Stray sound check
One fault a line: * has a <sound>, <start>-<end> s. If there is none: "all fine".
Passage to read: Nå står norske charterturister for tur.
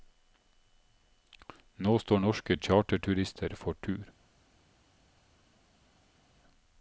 all fine